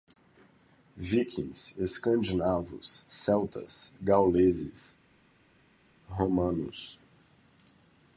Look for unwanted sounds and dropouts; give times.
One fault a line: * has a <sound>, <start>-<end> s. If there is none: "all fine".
all fine